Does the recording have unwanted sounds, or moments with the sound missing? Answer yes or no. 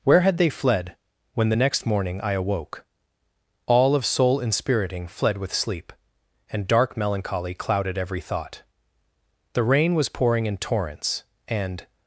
no